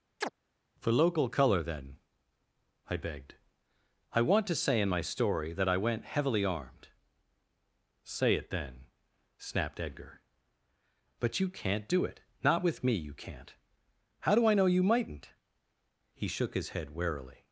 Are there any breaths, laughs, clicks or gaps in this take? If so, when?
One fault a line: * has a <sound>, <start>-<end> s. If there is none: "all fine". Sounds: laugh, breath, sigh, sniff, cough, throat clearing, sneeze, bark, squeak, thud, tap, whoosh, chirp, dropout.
* has a chirp, 0.2-0.3 s